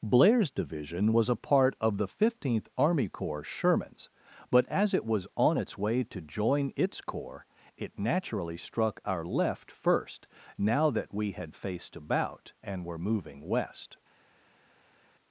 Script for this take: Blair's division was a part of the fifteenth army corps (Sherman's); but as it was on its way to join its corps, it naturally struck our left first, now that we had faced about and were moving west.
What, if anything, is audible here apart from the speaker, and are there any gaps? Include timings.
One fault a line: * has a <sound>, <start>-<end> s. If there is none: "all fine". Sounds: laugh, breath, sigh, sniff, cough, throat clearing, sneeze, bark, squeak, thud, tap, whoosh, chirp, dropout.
all fine